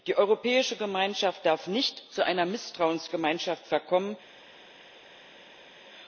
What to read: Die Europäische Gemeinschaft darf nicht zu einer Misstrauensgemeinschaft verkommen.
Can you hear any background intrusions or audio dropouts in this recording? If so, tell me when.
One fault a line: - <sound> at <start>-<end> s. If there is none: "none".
none